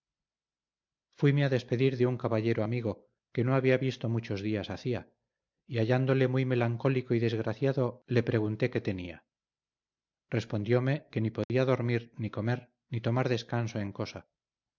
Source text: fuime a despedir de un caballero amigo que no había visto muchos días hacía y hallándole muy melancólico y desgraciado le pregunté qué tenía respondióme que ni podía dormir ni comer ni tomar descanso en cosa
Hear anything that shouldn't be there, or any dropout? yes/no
yes